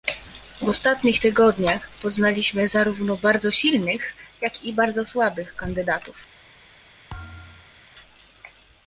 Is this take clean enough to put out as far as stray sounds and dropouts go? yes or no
no